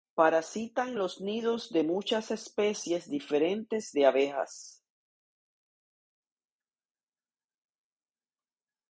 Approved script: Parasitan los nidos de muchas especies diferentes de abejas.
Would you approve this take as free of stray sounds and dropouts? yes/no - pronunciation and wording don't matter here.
yes